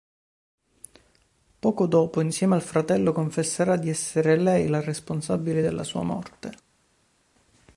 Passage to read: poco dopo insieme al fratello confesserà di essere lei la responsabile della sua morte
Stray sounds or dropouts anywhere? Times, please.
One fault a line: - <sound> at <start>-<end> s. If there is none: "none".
none